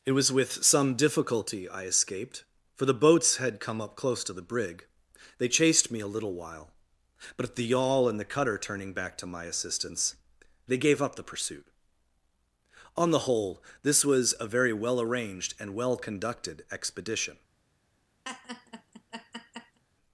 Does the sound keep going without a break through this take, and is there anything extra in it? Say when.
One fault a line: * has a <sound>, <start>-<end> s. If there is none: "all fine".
* has a laugh, 18.2-19.8 s